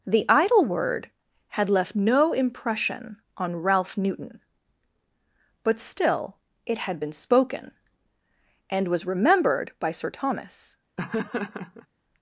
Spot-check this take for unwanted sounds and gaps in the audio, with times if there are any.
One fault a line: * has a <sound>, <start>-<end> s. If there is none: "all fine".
* has a laugh, 11.0-11.9 s